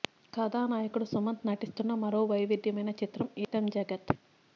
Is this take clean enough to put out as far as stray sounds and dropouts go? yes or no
no